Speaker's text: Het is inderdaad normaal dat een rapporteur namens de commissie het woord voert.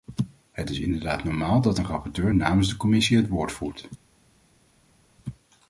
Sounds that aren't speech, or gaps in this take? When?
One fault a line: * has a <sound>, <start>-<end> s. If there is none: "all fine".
all fine